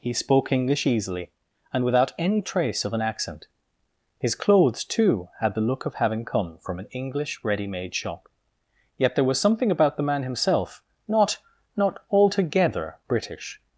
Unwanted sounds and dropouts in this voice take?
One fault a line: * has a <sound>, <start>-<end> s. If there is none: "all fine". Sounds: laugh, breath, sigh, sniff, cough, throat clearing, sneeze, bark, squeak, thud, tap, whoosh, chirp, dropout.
all fine